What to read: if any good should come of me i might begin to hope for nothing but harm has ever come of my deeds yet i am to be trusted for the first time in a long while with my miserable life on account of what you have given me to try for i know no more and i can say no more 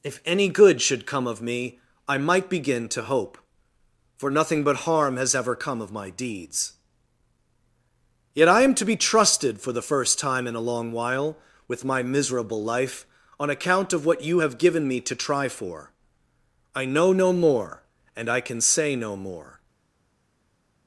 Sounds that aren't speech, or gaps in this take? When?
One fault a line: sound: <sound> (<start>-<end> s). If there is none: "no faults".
no faults